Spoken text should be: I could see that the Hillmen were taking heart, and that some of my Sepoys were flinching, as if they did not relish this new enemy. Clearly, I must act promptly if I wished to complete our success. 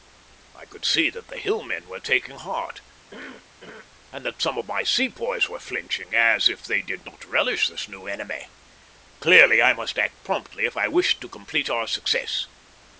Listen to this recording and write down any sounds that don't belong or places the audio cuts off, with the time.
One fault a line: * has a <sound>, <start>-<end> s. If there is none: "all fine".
* has a cough, 3.1-3.9 s